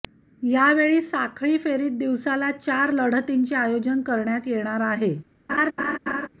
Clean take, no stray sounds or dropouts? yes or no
no